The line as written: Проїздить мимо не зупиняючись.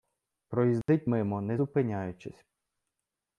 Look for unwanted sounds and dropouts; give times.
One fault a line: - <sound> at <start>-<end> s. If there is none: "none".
- dropout at 0.8-0.9 s